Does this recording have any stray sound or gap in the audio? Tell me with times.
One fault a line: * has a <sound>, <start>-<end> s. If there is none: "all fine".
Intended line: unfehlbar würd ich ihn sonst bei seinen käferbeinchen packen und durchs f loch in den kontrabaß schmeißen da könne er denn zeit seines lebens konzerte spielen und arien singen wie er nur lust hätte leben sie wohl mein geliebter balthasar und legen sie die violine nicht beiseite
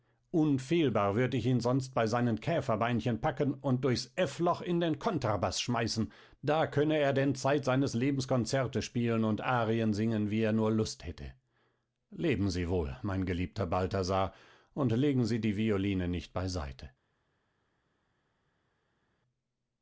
all fine